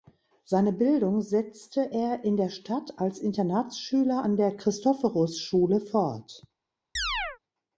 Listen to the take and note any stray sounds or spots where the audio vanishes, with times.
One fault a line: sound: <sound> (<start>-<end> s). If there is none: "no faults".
sound: chirp (7.0-7.4 s)